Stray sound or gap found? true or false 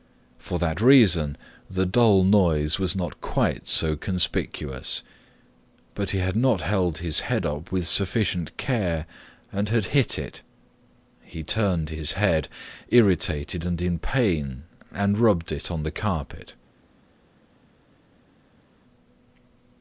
false